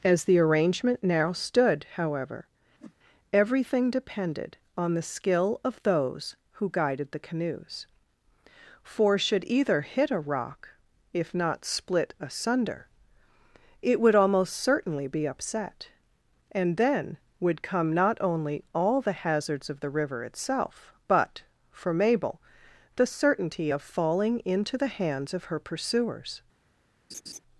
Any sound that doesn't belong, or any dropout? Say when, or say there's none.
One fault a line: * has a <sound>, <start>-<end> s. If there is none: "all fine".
* has a whoosh, 2.8-2.9 s
* has a laugh, 27.1-27.4 s